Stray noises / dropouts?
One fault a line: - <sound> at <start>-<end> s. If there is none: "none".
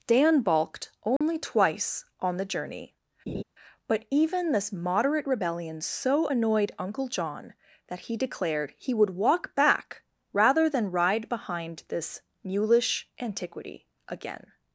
- dropout at 1.2-1.2 s
- laugh at 3.3-3.4 s